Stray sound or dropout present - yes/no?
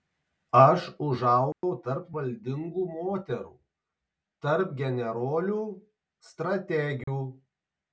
yes